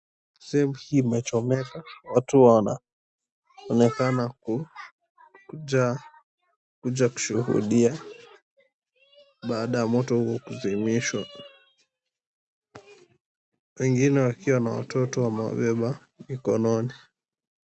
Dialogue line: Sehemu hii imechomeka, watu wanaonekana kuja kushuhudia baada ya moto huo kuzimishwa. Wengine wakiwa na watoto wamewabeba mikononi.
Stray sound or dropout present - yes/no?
no